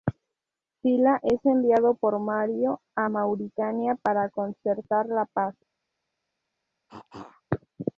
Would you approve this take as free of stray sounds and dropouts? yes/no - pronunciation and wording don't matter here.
no